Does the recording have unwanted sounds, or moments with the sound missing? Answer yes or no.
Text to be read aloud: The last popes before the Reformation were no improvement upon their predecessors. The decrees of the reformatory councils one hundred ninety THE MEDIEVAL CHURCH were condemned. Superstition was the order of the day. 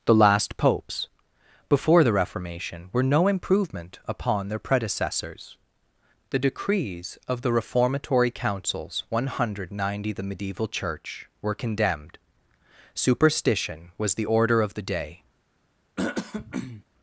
yes